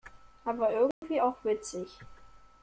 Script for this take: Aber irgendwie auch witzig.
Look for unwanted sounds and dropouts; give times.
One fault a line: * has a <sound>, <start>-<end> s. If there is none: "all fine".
* has a dropout, 0.9-1.0 s